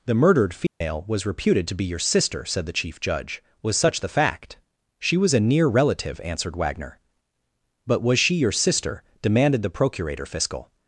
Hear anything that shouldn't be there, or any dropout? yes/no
yes